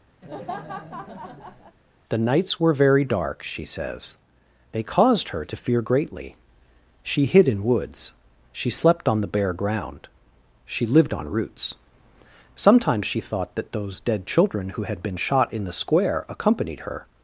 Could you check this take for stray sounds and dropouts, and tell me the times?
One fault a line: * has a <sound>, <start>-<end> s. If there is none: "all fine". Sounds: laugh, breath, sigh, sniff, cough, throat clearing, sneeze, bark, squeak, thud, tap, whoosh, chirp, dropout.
* has a laugh, 0.2-1.8 s